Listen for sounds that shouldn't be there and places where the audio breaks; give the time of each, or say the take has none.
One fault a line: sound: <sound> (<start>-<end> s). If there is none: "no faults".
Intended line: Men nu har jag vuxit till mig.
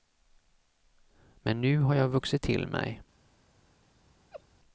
sound: laugh (4.3-4.4 s)